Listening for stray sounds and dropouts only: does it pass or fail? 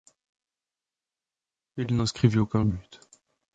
pass